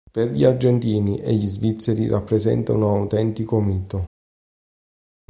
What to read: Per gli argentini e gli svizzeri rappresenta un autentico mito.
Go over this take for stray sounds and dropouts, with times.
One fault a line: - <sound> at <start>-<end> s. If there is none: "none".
none